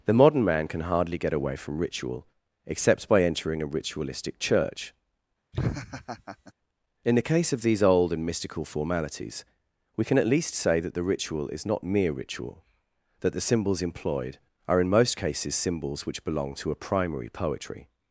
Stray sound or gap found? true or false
true